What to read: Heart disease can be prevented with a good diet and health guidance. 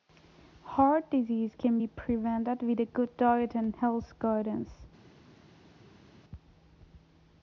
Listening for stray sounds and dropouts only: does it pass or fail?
pass